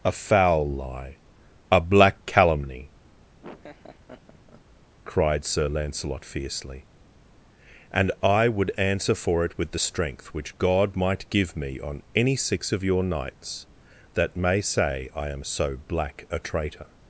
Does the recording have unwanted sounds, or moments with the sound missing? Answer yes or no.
yes